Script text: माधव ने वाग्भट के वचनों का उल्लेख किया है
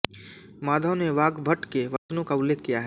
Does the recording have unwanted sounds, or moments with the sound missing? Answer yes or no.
yes